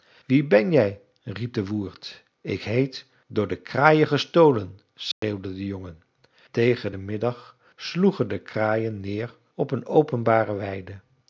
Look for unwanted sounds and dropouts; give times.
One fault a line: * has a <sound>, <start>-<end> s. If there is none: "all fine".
* has a dropout, 5.1-5.2 s